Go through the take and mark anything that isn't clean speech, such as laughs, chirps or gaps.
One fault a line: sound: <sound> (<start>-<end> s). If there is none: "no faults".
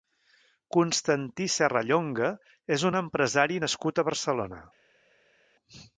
no faults